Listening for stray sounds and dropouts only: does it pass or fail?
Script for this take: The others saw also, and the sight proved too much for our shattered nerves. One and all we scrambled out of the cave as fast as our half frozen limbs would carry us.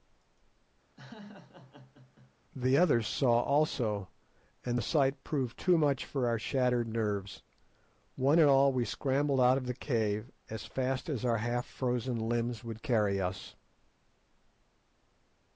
fail